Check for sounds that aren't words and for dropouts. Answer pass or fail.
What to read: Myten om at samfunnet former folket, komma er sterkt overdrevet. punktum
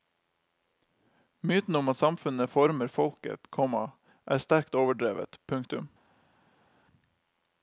pass